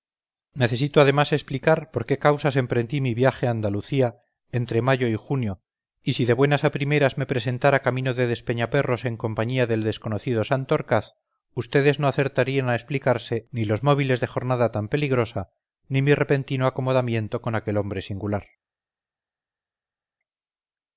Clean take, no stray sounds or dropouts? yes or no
yes